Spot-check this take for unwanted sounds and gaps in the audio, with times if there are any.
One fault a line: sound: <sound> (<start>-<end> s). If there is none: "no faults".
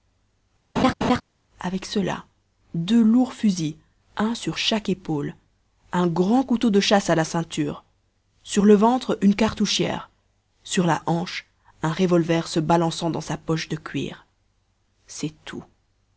sound: laugh (0.8-1.2 s)